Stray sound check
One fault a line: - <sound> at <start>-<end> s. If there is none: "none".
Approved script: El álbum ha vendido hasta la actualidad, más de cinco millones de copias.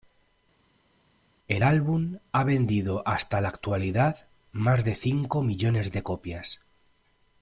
none